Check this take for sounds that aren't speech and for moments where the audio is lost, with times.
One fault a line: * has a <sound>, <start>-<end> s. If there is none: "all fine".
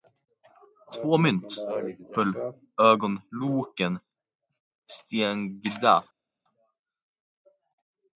all fine